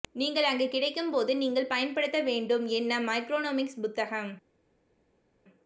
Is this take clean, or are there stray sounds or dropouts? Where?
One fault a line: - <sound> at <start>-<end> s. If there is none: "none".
none